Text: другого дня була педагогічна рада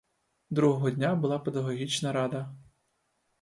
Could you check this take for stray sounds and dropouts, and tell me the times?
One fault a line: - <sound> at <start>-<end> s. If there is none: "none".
none